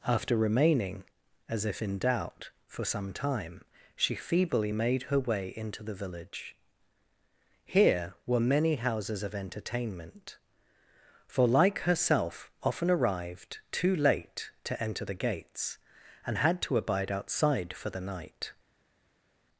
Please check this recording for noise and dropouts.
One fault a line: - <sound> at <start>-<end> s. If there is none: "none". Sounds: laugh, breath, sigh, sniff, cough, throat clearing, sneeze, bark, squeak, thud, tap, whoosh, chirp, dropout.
none